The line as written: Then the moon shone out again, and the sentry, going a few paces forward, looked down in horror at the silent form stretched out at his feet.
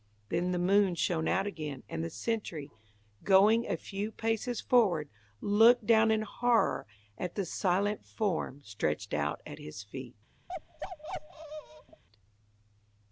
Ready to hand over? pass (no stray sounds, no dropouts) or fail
fail